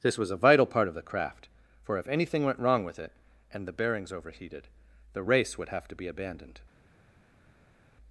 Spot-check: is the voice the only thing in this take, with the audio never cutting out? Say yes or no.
yes